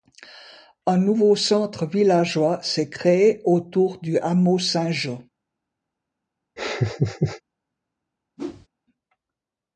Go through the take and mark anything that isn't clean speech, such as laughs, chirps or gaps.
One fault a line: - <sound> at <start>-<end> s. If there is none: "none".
- laugh at 6.6-7.4 s
- whoosh at 8.4-8.7 s